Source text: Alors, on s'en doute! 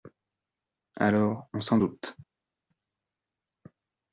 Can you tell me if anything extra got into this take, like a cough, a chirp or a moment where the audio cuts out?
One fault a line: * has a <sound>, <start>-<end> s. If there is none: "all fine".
all fine